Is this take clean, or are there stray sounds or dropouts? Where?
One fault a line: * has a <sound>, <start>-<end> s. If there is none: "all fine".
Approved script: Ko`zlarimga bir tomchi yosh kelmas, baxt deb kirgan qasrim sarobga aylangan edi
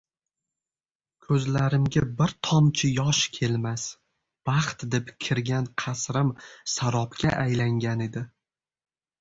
all fine